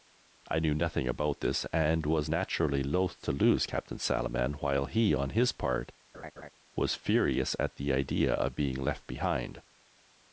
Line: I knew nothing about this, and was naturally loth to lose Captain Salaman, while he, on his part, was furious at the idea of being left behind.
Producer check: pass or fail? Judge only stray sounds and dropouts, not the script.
fail